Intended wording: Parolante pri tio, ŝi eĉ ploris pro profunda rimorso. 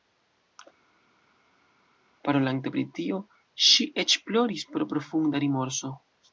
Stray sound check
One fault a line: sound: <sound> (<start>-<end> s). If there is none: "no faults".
no faults